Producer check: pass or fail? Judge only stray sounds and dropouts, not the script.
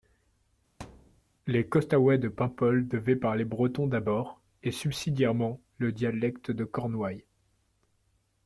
fail